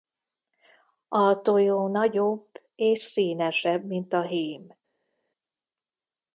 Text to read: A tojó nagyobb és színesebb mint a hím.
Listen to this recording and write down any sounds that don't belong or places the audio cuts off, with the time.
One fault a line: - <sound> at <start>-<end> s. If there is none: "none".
none